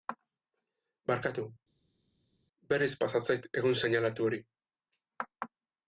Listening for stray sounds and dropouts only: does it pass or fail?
pass